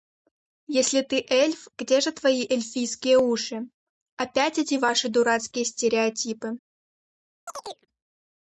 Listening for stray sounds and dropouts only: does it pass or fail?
fail